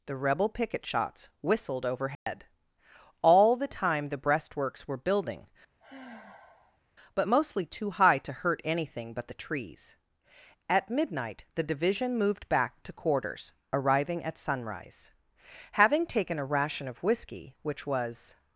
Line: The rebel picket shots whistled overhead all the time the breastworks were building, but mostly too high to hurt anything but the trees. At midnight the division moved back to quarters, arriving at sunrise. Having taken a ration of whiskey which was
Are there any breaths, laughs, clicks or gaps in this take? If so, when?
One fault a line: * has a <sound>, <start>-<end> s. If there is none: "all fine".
* has a dropout, 2.2-2.3 s
* has a sigh, 5.8-6.8 s